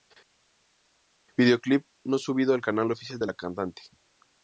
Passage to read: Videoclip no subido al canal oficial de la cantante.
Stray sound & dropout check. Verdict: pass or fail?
pass